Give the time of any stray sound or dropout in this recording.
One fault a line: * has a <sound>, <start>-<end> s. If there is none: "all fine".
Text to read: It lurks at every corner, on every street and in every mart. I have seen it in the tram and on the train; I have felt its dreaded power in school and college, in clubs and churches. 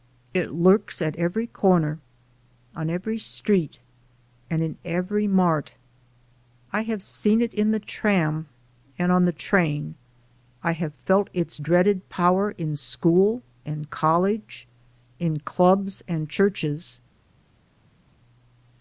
all fine